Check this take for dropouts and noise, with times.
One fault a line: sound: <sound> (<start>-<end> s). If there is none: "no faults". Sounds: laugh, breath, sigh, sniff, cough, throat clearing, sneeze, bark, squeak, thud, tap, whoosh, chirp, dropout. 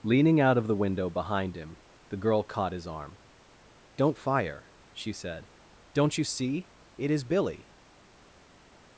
no faults